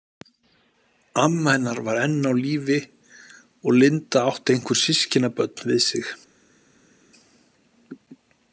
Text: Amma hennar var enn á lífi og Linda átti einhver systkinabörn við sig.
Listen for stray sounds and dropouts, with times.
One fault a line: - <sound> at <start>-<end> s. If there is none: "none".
none